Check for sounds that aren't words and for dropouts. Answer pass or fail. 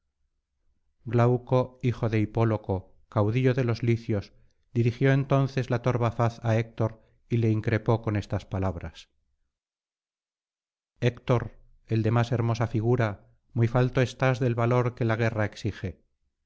pass